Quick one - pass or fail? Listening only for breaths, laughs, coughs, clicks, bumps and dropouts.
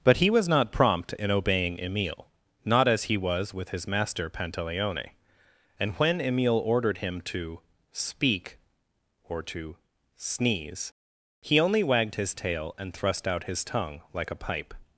pass